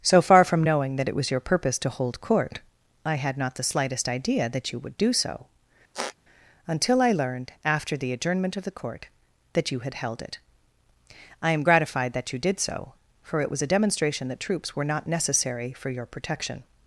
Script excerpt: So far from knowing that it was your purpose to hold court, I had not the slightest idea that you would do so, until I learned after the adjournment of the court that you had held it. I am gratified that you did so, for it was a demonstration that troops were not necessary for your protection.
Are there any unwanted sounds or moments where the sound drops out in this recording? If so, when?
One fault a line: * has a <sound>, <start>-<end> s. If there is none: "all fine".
* has a squeak, 5.9-6.2 s